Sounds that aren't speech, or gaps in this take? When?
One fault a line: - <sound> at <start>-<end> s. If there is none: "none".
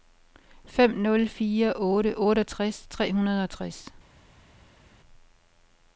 none